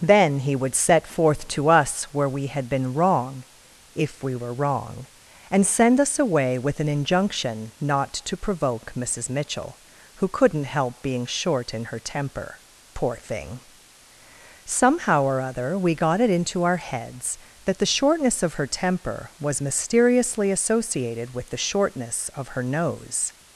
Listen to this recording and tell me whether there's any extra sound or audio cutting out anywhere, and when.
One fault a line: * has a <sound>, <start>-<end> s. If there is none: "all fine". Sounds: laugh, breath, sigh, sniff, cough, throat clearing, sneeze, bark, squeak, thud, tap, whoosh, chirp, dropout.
all fine